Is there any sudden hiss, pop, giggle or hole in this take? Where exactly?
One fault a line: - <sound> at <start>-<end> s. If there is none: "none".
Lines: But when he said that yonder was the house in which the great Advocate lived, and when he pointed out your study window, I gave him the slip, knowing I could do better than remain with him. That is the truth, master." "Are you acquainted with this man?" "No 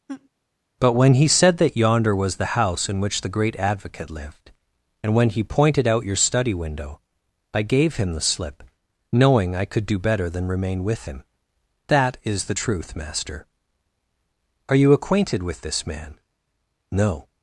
- laugh at 0.1-0.3 s